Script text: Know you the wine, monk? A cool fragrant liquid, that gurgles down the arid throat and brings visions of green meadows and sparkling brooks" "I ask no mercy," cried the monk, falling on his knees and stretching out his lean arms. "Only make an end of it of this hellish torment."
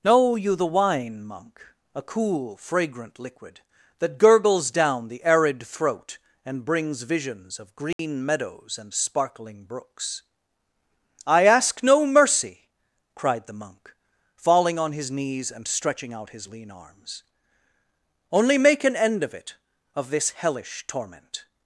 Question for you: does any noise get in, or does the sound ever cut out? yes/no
yes